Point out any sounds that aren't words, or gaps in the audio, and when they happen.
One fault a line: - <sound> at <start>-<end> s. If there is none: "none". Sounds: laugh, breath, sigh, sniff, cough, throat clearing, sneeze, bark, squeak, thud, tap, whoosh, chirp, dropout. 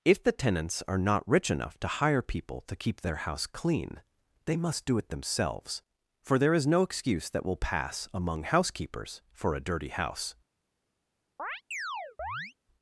- chirp at 11.4-12.5 s